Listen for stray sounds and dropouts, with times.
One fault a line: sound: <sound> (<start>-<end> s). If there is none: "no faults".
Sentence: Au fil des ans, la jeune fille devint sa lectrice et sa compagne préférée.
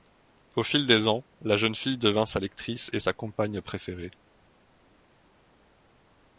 no faults